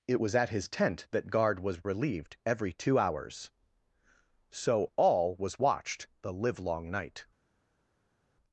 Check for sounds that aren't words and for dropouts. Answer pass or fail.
pass